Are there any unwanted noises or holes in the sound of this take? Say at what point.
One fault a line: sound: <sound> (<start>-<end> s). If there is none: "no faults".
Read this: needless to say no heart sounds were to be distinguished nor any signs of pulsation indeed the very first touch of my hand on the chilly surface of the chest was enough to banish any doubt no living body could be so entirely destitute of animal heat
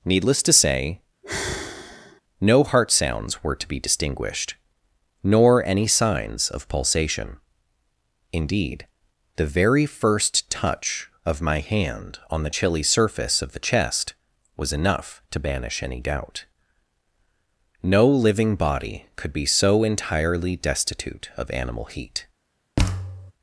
sound: sigh (1.2-2.2 s)
sound: thud (22.8-23.3 s)